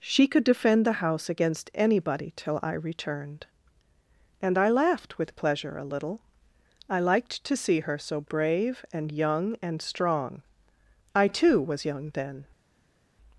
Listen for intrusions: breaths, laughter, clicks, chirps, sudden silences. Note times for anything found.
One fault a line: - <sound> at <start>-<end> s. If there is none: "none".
none